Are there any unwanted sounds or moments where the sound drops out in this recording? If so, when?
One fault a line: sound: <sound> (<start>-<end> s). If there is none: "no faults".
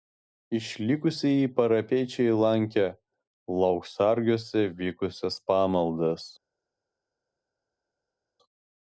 no faults